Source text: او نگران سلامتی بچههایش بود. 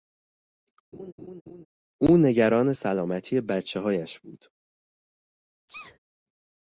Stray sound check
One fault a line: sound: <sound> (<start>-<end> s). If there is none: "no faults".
sound: laugh (0.9-1.7 s)
sound: sneeze (5.7-6.0 s)